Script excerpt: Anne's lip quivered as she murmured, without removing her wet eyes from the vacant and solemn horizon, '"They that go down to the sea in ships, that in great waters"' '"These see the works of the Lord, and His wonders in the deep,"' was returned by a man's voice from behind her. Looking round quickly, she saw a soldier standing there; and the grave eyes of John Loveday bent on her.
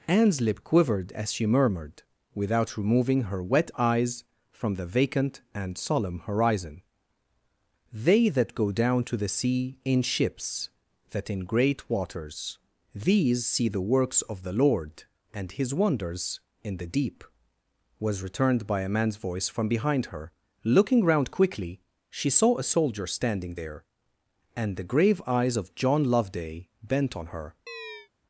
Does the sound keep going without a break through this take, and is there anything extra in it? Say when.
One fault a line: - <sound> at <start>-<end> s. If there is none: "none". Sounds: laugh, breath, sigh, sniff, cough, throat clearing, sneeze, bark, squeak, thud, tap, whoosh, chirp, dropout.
- chirp at 27.7-28.1 s